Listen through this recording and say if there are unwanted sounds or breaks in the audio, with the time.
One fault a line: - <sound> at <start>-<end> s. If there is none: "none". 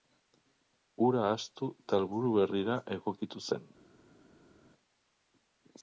none